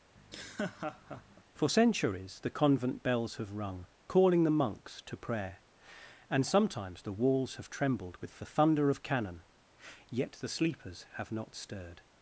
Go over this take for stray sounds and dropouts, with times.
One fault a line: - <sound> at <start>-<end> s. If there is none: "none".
- laugh at 0.1-1.4 s